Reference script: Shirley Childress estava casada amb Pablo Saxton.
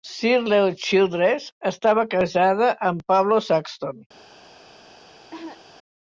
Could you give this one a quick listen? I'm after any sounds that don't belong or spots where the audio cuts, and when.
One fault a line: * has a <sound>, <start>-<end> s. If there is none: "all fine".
* has a cough, 5.3-5.6 s